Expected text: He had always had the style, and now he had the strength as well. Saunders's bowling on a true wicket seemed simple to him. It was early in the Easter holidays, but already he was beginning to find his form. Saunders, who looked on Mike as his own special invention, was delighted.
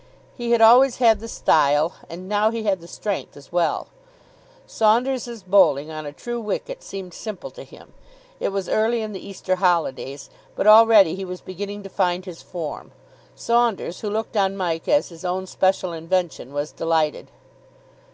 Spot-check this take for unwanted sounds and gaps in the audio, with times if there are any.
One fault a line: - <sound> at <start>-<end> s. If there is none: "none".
none